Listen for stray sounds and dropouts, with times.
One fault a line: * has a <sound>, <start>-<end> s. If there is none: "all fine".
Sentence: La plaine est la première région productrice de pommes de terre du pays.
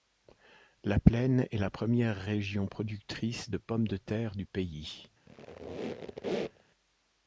* has a squeak, 5.3-6.7 s